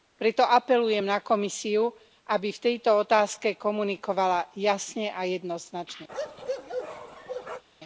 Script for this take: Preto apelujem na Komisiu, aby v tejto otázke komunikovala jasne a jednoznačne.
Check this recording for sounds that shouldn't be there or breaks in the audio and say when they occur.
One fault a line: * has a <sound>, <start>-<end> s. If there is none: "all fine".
* has a bark, 6.1-7.6 s